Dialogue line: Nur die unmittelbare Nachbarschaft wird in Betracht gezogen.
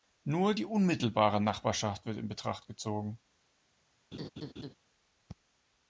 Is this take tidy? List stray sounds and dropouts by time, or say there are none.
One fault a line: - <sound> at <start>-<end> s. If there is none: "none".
- laugh at 4.1-4.7 s